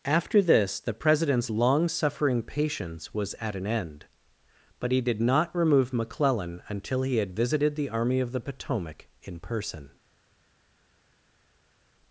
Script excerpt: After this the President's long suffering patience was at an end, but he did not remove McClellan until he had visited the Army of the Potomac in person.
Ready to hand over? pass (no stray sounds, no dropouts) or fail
pass